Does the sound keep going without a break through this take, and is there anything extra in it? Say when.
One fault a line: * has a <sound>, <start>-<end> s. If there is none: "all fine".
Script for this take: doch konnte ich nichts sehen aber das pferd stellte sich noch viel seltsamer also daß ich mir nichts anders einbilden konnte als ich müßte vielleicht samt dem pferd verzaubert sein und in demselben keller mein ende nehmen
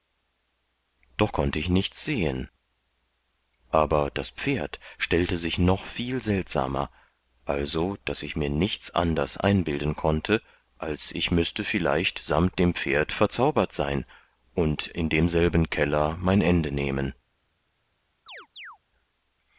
* has a chirp, 18.3-18.8 s